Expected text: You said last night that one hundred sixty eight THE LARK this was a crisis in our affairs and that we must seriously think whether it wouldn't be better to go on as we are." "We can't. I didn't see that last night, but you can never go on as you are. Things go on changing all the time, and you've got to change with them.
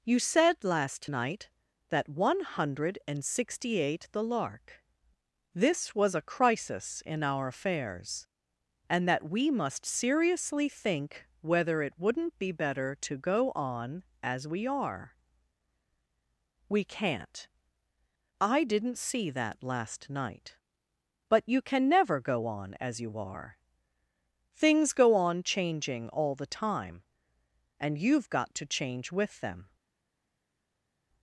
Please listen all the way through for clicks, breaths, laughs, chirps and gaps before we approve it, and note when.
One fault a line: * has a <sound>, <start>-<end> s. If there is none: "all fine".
all fine